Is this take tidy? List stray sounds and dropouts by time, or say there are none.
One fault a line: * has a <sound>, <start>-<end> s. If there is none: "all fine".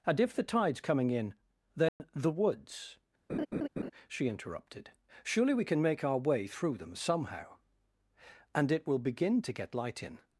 * has a dropout, 1.9-2.0 s
* has a laugh, 3.3-3.9 s